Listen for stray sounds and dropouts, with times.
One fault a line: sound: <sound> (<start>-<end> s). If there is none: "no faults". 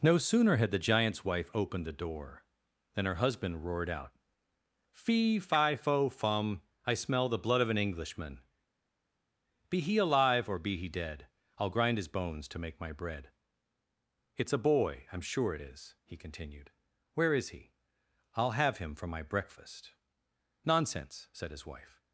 no faults